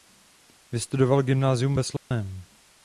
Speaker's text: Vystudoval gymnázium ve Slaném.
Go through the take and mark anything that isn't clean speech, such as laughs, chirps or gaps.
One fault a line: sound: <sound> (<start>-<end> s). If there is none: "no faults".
sound: dropout (2.0-2.1 s)